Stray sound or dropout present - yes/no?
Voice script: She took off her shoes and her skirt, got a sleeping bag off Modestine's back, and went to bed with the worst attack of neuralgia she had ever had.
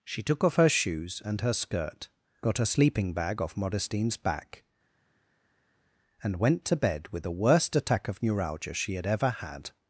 no